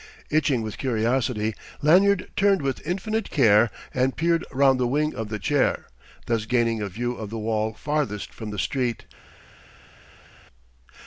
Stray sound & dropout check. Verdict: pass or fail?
pass